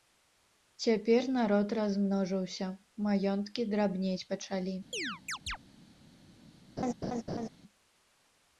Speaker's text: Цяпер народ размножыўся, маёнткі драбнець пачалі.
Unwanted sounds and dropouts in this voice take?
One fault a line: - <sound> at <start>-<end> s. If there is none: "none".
- chirp at 4.9-5.6 s
- laugh at 6.8-7.5 s